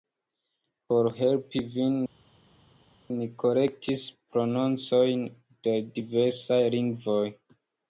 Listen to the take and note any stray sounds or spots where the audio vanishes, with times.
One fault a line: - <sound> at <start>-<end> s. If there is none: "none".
none